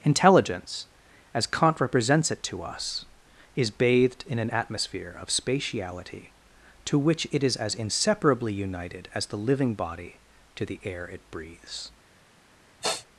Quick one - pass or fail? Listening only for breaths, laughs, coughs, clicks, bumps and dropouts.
fail